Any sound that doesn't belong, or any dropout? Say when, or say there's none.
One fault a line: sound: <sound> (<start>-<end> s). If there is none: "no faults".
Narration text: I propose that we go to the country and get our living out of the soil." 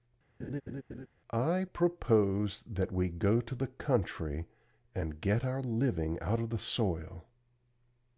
sound: laugh (0.4-1.1 s)